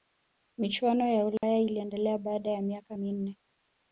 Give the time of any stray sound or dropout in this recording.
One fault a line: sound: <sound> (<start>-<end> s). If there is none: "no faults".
sound: dropout (1.4-1.4 s)